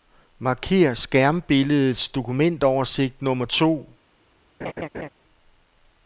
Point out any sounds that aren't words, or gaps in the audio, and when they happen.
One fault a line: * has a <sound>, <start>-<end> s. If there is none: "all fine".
* has a laugh, 4.6-5.1 s